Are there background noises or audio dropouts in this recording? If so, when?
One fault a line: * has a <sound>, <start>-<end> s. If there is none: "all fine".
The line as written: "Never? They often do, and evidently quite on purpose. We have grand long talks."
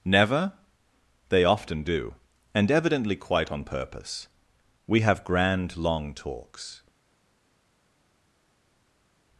all fine